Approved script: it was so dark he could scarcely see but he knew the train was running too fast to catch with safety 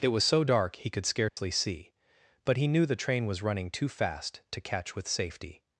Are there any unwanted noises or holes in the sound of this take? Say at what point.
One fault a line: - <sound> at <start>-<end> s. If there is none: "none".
- dropout at 1.3-1.4 s